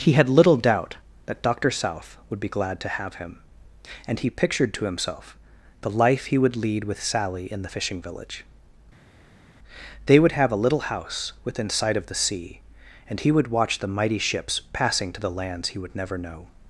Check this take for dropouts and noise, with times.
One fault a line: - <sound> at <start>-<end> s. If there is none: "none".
none